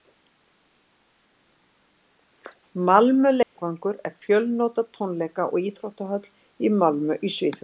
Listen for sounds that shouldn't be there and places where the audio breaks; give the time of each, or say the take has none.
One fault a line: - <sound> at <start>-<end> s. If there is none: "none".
- dropout at 3.4-3.6 s